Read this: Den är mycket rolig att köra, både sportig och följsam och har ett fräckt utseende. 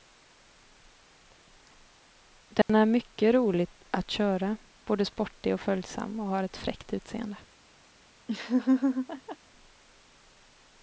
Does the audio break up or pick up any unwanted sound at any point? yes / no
yes